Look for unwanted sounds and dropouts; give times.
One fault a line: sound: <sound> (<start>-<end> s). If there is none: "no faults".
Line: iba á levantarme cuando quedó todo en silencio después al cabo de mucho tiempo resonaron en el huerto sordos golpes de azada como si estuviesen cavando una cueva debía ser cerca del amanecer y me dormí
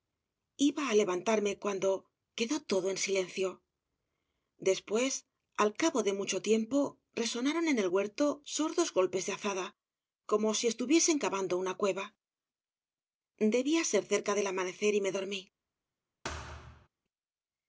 sound: thud (16.2-16.9 s)